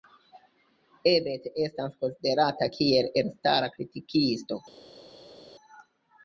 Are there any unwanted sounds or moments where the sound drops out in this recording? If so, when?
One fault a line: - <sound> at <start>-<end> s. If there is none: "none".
none